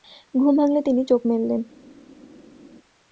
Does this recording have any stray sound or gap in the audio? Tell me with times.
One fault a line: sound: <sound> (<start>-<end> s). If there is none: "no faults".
no faults